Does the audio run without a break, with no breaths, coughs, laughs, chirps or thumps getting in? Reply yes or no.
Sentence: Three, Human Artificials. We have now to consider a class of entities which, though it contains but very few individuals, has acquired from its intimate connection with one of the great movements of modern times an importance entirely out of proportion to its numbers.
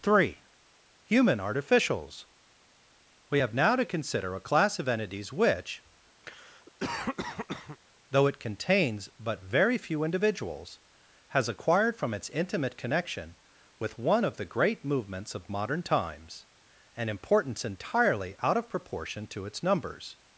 no